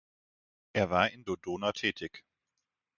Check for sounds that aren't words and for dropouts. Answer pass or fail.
pass